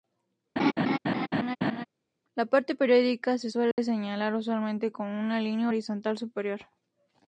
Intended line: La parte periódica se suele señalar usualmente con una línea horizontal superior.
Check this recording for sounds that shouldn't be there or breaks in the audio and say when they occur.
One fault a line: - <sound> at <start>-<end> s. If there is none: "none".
- laugh at 0.6-1.9 s
- dropout at 3.7-3.8 s